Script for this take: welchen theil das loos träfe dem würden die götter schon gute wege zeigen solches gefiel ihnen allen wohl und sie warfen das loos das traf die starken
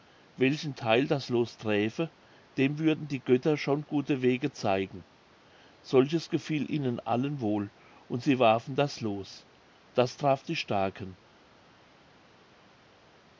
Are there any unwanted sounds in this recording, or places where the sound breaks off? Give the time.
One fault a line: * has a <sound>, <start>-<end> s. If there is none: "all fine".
all fine